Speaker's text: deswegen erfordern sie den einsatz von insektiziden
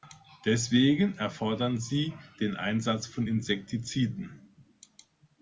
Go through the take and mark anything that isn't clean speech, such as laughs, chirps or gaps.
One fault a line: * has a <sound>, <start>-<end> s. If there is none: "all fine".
all fine